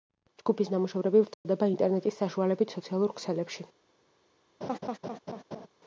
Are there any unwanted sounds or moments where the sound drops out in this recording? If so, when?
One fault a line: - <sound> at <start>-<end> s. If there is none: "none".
- dropout at 1.3-1.5 s
- laugh at 4.6-5.7 s